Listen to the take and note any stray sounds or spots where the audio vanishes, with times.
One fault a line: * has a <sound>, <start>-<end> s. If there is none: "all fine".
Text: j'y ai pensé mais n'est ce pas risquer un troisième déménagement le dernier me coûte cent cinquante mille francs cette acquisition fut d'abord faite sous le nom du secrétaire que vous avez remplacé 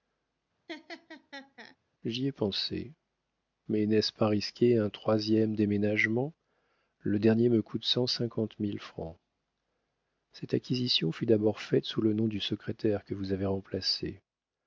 * has a laugh, 0.7-1.8 s